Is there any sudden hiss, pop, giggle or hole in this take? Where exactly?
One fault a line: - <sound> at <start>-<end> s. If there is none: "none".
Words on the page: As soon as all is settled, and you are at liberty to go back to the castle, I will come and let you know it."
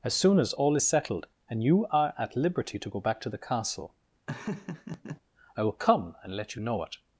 - laugh at 4.3-5.2 s